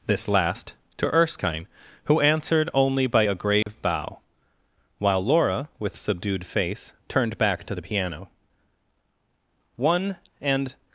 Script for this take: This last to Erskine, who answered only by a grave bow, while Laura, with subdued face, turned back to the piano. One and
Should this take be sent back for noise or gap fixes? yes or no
yes